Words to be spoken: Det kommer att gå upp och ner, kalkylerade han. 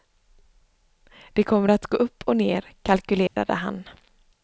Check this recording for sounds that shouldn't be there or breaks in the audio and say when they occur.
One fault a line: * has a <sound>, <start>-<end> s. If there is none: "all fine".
* has a dropout, 3.3-3.4 s